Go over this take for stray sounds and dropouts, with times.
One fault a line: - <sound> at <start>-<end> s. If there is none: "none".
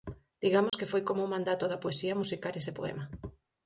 - dropout at 0.7-0.7 s